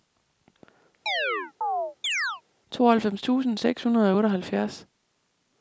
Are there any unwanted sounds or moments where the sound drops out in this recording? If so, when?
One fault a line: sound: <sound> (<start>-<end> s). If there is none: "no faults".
sound: chirp (1.1-2.4 s)